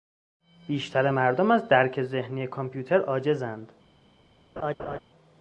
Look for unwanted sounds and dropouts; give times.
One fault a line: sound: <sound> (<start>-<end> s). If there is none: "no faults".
sound: laugh (4.6-5.0 s)